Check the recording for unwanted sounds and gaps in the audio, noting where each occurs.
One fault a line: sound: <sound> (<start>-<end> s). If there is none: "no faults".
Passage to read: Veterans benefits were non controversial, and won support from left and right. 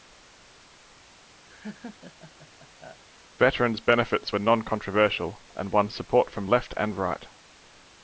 sound: laugh (1.5-3.0 s)